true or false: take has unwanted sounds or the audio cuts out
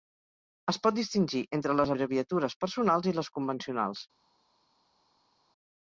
false